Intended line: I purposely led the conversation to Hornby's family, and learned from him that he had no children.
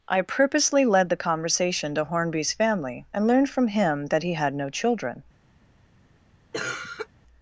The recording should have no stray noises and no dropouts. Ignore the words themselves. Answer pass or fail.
fail